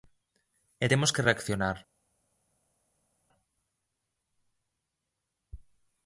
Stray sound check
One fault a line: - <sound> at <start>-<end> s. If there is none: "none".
none